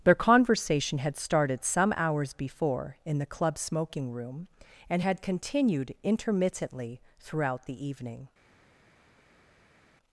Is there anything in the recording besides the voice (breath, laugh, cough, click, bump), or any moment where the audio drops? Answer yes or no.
no